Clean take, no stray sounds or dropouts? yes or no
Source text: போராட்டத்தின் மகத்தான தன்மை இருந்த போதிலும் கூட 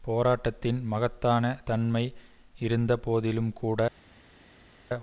yes